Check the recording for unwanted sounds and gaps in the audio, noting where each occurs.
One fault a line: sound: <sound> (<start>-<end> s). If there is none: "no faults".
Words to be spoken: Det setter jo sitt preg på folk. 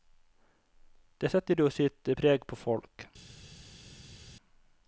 no faults